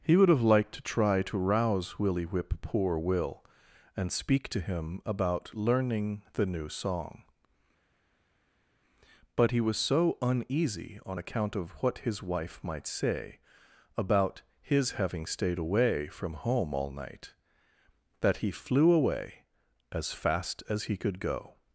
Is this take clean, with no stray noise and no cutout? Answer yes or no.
yes